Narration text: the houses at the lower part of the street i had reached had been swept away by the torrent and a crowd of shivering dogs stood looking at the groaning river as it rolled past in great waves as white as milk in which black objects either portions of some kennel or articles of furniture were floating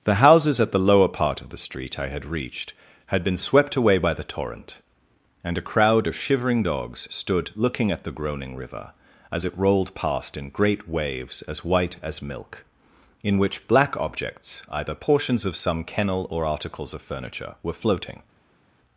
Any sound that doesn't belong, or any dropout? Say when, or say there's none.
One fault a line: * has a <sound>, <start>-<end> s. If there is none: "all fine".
all fine